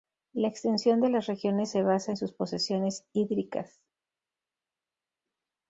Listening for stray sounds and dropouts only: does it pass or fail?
pass